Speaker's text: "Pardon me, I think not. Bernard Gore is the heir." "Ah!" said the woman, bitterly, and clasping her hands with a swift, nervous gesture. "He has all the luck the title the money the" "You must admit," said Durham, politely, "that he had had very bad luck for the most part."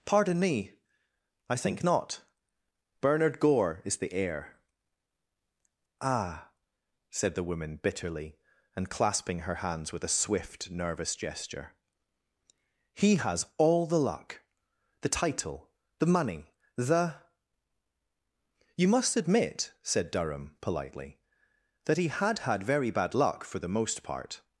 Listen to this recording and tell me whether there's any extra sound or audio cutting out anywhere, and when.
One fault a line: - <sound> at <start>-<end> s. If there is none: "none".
none